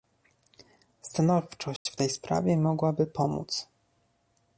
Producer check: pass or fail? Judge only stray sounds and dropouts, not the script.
fail